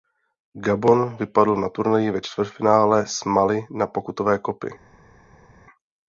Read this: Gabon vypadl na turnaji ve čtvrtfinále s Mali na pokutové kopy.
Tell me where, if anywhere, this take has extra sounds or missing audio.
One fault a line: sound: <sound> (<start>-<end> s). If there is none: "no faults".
no faults